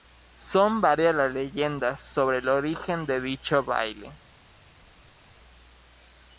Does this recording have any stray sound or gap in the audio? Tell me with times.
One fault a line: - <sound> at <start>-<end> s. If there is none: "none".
none